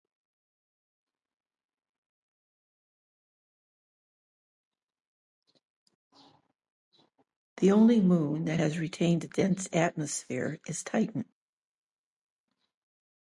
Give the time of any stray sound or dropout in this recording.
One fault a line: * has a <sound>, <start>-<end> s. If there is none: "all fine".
all fine